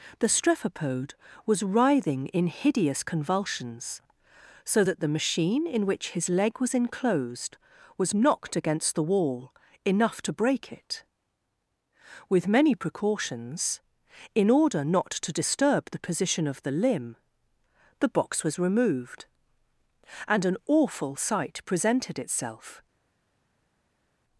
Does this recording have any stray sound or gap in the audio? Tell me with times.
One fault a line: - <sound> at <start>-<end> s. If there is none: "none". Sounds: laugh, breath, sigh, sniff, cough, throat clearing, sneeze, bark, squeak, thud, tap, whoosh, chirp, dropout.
none